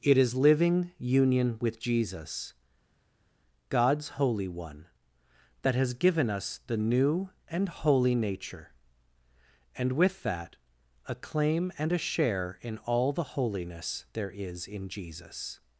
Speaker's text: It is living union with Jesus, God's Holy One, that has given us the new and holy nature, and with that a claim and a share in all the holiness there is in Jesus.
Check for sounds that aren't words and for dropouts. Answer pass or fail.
pass